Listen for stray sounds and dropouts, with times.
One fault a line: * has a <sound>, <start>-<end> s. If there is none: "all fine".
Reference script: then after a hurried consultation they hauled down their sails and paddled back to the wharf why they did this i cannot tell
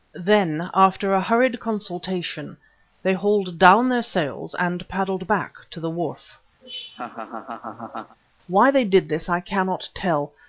* has a laugh, 6.6-8.2 s